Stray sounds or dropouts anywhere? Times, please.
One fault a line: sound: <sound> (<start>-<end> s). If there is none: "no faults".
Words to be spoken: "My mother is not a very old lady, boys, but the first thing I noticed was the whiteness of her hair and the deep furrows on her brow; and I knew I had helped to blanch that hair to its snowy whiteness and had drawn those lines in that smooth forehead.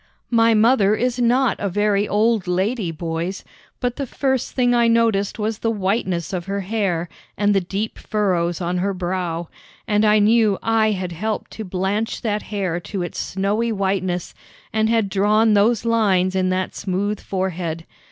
no faults